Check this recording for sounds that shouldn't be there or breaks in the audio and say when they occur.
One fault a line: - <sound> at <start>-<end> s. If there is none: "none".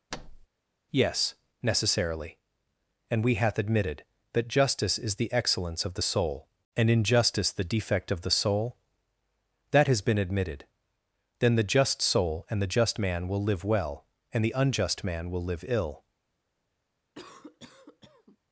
- thud at 0.1-0.5 s
- cough at 17.1-18.4 s